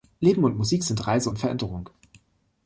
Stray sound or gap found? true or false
false